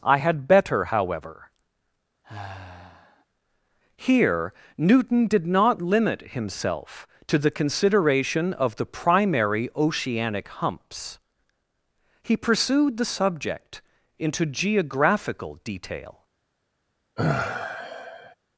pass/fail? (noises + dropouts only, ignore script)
fail